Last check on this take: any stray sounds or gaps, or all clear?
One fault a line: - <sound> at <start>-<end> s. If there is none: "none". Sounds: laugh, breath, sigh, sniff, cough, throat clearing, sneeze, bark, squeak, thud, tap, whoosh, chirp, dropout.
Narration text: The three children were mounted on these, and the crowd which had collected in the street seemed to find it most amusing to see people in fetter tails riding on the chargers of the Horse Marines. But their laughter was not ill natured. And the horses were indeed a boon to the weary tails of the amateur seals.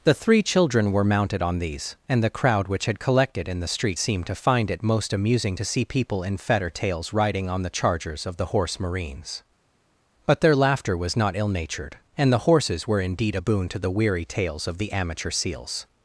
none